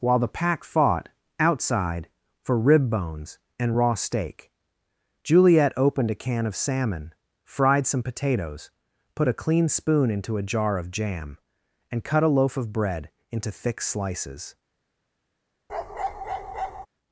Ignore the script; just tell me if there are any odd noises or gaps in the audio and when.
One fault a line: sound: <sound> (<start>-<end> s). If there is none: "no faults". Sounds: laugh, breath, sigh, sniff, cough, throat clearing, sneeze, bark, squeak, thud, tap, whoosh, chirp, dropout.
sound: bark (15.7-16.9 s)